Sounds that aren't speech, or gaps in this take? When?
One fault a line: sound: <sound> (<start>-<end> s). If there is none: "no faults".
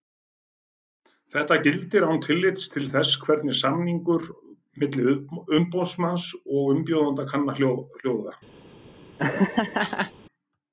sound: laugh (9.2-10.1 s)